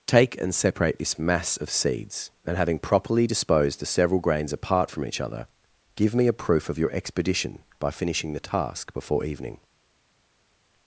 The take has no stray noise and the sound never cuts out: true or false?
true